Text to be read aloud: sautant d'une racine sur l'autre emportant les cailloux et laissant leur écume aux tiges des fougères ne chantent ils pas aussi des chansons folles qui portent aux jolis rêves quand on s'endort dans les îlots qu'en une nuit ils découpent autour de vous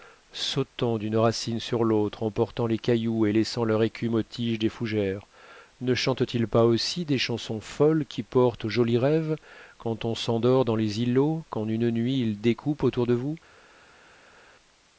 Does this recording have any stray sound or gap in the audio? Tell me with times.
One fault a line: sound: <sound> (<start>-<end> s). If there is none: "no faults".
no faults